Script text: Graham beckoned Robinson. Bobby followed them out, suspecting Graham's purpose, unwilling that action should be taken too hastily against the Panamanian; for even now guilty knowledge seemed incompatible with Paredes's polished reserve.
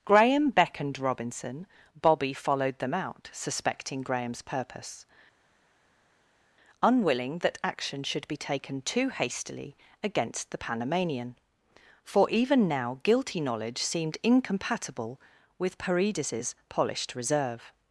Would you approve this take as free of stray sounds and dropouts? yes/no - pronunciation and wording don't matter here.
yes